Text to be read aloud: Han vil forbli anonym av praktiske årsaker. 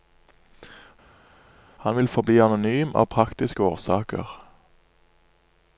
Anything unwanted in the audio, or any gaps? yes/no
no